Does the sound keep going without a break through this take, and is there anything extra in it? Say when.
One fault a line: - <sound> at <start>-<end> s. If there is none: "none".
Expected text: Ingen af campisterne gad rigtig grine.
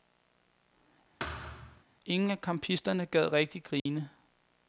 - thud at 1.2-1.8 s
- dropout at 3.8-3.9 s